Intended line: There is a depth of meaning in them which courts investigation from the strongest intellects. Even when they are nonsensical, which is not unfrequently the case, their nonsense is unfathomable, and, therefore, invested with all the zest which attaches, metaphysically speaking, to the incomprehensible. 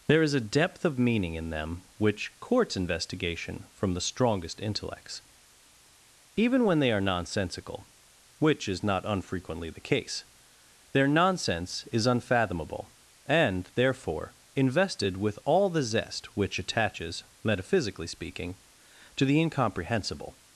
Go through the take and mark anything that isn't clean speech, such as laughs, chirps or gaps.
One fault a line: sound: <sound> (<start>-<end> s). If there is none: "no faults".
no faults